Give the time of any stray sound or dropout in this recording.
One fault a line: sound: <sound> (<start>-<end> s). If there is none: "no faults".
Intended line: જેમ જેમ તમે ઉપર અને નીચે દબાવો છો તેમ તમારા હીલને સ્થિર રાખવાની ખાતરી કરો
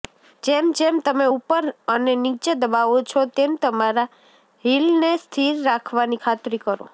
no faults